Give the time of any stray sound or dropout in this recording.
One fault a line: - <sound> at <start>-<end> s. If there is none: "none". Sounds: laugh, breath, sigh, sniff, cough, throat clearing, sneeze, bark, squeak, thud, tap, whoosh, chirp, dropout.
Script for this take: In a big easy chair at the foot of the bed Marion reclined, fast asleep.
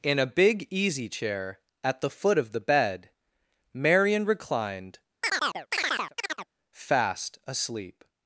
- chirp at 5.2-6.5 s